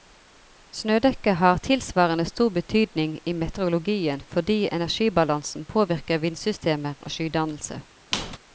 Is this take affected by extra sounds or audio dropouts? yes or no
yes